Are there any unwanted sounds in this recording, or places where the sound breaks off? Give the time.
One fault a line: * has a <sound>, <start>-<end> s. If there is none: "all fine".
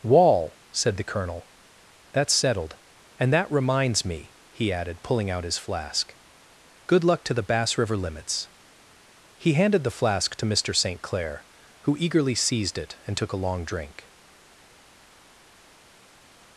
all fine